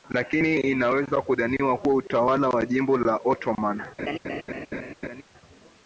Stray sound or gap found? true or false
true